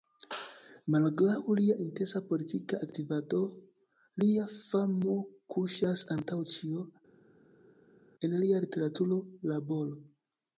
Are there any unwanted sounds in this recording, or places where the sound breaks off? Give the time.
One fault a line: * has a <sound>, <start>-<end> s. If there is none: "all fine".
all fine